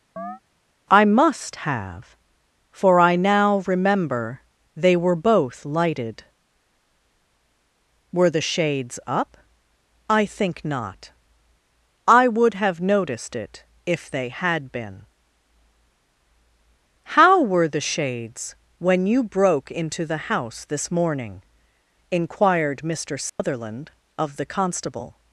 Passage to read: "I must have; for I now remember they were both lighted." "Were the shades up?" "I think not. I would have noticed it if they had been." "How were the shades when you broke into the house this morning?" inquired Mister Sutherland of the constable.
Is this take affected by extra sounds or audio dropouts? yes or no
yes